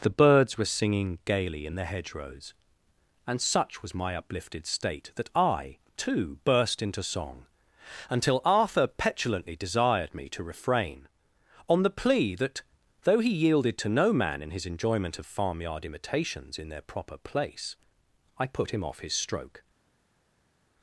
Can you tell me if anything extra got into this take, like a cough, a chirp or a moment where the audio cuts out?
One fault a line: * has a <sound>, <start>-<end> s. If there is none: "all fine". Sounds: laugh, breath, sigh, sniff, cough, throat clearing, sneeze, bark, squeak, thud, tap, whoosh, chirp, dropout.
all fine